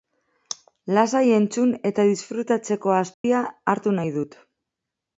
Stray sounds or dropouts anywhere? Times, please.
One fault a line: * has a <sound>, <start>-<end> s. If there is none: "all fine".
* has a dropout, 3.1-3.2 s